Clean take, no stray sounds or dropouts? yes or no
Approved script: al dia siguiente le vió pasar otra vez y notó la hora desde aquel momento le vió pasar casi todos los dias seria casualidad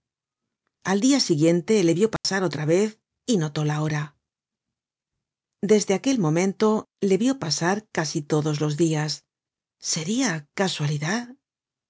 no